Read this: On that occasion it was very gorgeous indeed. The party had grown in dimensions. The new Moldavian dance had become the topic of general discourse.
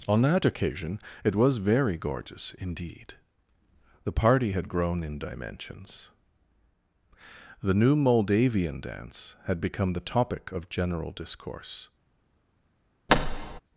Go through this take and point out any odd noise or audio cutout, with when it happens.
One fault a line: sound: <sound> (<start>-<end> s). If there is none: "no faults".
sound: thud (13.1-13.6 s)